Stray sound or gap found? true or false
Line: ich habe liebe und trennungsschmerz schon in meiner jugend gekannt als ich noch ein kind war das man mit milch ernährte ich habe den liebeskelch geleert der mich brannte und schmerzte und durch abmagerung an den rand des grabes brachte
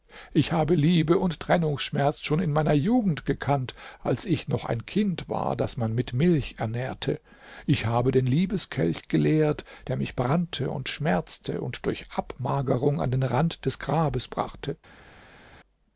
false